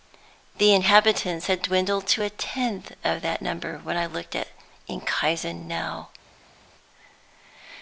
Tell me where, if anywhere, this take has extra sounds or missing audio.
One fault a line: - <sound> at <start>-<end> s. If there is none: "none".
none